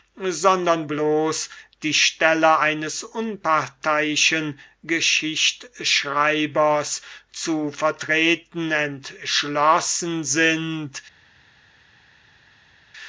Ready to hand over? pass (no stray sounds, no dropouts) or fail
pass